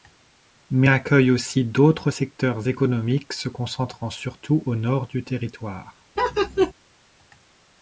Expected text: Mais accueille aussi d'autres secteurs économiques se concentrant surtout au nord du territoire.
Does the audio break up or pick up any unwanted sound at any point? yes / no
yes